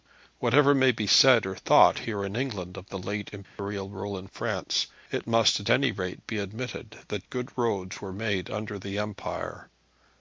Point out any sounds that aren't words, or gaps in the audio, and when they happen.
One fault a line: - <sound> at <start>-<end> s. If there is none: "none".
- dropout at 3.4-3.6 s